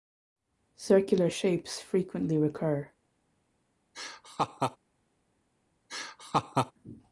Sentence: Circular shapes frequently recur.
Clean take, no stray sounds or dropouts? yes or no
no